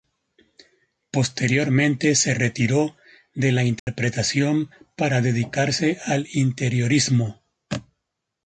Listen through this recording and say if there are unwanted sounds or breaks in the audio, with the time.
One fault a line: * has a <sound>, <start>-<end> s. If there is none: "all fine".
* has a dropout, 3.8-3.9 s